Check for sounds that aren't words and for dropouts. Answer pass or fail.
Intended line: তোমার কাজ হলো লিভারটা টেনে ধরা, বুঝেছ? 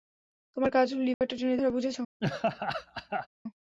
fail